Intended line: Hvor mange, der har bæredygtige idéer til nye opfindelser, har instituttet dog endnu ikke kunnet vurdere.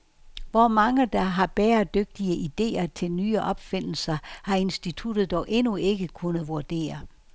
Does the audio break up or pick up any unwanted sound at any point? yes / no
no